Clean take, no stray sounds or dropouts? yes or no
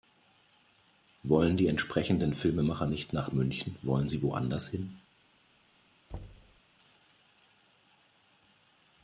no